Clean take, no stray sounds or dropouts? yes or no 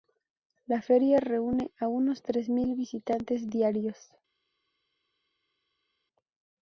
yes